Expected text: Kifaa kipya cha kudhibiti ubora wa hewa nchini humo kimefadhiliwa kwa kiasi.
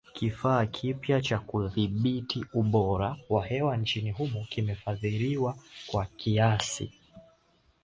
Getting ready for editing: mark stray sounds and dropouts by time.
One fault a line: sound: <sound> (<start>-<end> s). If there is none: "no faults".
no faults